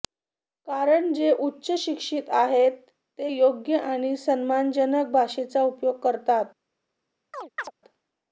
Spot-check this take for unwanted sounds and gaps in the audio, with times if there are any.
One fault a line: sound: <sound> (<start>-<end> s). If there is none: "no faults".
sound: chirp (7.3-7.7 s)